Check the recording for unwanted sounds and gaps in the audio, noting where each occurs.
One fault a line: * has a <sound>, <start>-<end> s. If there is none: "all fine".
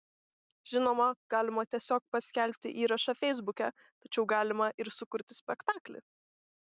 all fine